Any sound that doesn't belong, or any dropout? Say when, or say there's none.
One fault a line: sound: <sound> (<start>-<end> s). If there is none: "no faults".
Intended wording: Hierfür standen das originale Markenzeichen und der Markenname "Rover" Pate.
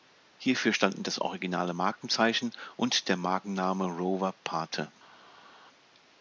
no faults